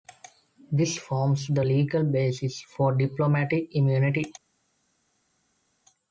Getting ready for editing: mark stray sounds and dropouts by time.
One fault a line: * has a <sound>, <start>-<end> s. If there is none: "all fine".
all fine